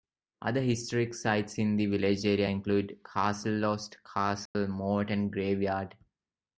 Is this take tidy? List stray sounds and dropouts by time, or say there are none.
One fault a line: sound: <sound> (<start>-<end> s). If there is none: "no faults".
sound: dropout (4.5-4.5 s)